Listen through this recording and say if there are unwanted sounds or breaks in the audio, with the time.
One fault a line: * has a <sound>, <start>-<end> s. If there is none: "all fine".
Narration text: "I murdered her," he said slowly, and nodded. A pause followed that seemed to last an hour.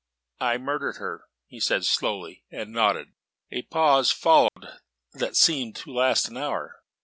* has a dropout, 4.5-4.6 s